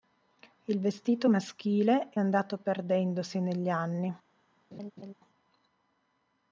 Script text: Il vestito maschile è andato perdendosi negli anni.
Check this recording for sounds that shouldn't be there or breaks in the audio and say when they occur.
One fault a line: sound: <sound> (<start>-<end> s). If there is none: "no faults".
sound: laugh (4.7-5.1 s)